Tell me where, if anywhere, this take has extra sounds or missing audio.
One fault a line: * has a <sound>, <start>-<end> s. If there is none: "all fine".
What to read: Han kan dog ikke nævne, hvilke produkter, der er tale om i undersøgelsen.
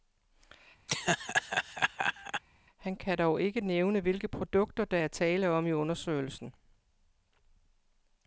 * has a laugh, 0.9-2.4 s